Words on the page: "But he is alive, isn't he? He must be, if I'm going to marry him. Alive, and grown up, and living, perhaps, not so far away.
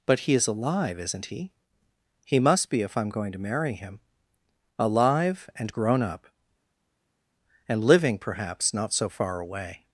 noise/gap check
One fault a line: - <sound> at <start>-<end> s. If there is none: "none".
none